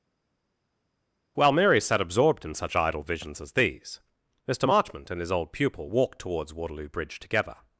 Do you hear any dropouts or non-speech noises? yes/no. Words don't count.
no